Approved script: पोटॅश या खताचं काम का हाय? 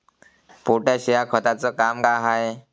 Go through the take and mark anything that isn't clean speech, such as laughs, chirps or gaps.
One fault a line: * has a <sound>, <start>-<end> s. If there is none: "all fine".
all fine